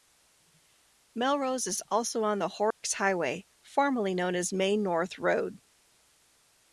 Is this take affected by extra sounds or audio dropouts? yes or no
yes